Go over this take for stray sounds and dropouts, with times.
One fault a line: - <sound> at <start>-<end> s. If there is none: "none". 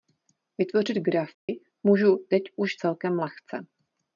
- dropout at 1.3-1.5 s